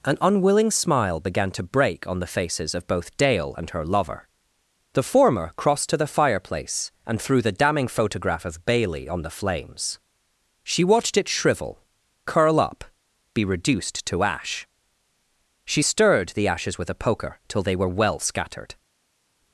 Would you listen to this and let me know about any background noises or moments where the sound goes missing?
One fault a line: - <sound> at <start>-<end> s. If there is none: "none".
none